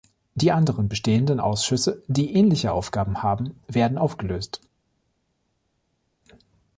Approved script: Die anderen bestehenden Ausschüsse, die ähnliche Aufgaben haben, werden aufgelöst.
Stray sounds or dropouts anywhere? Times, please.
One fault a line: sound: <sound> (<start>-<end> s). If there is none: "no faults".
no faults